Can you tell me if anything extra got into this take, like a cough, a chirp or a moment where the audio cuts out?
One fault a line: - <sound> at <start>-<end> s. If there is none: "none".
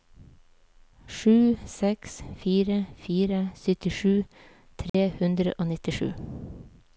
- dropout at 4.9-4.9 s